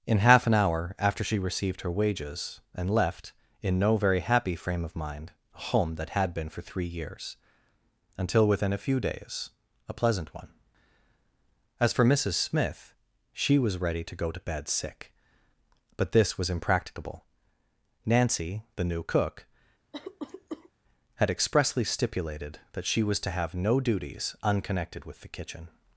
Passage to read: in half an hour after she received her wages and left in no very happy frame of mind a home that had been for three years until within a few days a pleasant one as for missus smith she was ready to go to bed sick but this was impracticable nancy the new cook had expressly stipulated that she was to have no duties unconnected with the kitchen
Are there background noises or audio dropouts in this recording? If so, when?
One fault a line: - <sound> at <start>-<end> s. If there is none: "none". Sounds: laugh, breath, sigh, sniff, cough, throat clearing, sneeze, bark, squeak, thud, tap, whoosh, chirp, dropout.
- cough at 19.9-20.7 s